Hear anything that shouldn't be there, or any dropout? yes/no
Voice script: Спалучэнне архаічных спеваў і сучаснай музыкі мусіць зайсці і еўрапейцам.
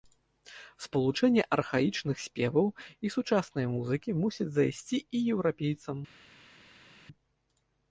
no